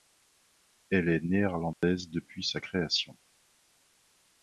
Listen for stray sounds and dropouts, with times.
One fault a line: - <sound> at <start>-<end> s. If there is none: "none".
- dropout at 1.7-1.8 s